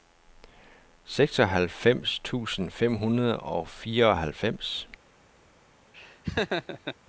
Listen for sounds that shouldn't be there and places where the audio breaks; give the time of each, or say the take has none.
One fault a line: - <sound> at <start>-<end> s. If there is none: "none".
- laugh at 5.9-7.0 s